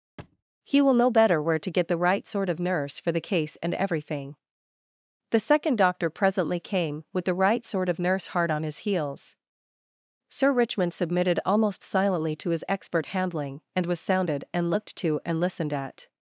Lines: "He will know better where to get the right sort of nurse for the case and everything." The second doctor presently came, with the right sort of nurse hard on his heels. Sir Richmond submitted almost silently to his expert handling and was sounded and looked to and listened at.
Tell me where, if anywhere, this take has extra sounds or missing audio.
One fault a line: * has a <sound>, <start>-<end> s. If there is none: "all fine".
* has a thud, 0.2-0.4 s